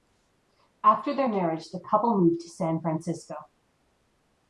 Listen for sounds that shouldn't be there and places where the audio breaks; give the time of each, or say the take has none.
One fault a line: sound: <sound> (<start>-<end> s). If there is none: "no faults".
no faults